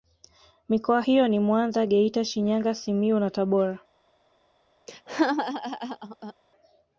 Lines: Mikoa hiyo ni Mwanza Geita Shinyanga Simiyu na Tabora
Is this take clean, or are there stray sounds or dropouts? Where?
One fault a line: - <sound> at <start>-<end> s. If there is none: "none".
- laugh at 4.9-6.3 s